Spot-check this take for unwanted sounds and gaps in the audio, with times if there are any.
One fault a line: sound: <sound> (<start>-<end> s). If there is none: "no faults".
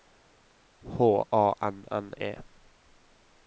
no faults